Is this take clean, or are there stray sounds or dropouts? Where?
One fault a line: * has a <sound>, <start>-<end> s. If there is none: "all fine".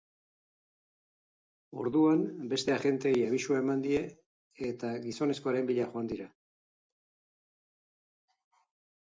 all fine